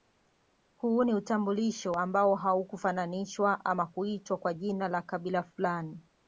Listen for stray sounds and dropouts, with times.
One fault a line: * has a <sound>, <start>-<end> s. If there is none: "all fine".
all fine